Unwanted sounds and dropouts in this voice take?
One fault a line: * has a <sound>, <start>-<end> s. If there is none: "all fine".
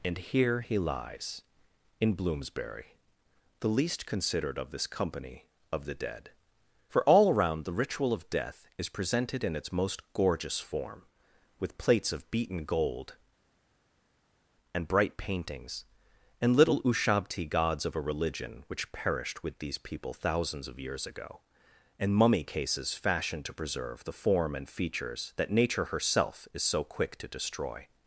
all fine